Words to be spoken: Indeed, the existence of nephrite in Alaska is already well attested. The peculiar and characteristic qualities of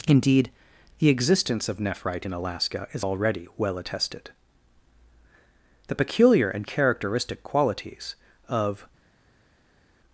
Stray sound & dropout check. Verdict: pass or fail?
pass